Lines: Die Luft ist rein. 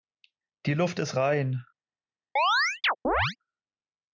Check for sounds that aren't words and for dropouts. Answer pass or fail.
fail